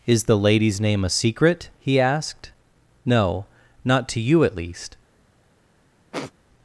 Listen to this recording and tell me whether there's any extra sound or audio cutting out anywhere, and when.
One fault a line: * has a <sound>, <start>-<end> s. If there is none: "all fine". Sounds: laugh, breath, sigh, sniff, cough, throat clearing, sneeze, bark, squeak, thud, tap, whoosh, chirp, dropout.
* has a sniff, 6.1-6.3 s